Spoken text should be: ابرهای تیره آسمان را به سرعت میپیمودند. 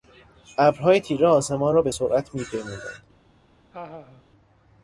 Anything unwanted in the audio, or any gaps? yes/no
yes